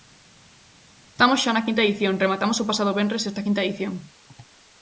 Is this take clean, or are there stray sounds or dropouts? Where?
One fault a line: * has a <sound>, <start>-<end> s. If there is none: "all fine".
all fine